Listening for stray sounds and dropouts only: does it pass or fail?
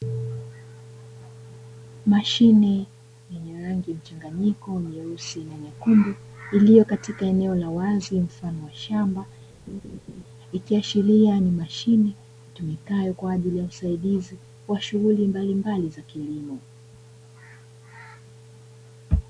fail